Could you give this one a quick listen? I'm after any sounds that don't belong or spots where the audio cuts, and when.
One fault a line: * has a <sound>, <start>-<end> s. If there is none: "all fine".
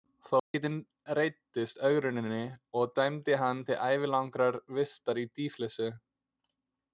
* has a dropout, 0.4-0.5 s